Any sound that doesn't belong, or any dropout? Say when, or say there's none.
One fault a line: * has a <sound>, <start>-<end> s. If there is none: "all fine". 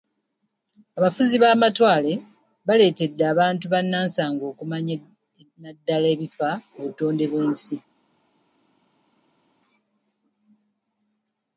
all fine